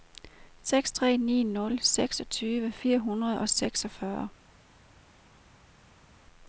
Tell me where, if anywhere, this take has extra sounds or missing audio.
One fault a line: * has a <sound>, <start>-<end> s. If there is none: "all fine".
all fine